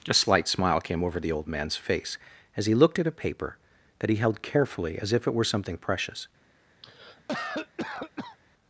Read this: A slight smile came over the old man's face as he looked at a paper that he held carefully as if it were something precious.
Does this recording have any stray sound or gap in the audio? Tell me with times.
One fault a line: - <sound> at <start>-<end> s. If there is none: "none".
- cough at 6.8-8.4 s